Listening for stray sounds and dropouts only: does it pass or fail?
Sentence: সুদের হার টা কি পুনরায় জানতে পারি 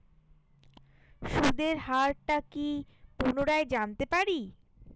pass